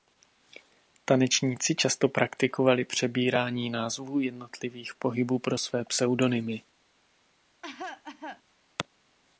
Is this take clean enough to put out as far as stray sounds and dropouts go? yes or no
no